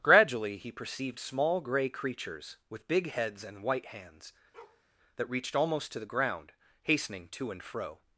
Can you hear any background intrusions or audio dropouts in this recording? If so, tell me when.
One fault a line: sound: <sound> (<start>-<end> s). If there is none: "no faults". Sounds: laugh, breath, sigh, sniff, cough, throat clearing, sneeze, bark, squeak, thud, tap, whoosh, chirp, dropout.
sound: bark (4.5-4.8 s)